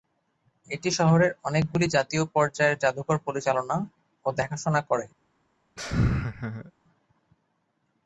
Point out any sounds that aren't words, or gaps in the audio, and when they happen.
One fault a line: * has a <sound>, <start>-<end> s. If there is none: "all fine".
* has a laugh, 5.8-6.7 s